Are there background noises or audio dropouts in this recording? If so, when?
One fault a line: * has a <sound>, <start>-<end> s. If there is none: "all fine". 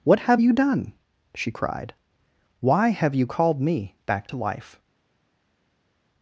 all fine